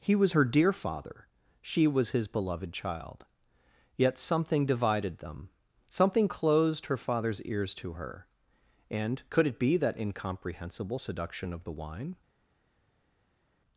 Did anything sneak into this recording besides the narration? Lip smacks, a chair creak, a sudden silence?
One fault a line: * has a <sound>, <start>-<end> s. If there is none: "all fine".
all fine